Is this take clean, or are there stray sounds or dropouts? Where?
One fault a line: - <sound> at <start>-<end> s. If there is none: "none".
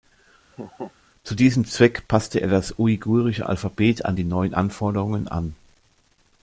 - laugh at 0.5-0.9 s